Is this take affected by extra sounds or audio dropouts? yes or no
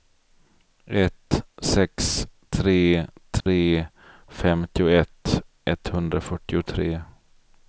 yes